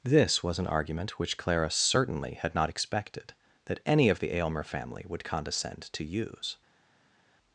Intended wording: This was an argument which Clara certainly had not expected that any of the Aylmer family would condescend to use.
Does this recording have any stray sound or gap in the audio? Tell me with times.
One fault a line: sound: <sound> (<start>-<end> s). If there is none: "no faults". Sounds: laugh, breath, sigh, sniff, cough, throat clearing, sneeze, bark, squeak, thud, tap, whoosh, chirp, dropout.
no faults